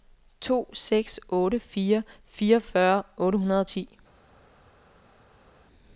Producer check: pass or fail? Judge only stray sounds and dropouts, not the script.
pass